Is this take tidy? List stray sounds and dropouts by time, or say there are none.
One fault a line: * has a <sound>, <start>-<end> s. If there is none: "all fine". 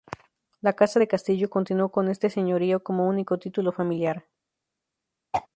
* has a throat clearing, 5.3-5.5 s